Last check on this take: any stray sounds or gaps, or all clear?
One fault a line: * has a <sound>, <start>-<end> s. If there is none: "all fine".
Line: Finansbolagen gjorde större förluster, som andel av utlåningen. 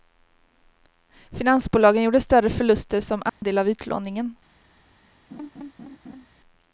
* has a dropout, 3.3-3.4 s
* has a laugh, 5.3-6.3 s